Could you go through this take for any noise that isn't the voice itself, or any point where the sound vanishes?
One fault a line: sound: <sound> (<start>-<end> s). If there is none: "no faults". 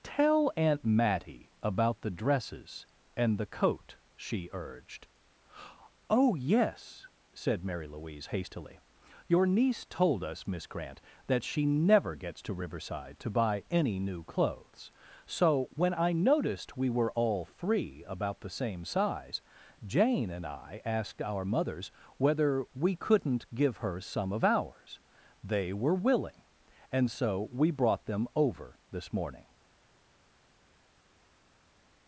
no faults